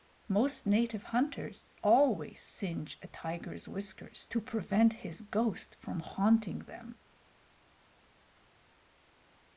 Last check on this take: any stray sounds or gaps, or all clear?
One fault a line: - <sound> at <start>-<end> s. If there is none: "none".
none